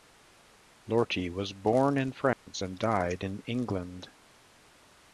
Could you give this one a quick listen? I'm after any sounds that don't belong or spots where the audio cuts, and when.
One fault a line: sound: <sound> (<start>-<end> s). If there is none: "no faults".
sound: dropout (2.3-2.5 s)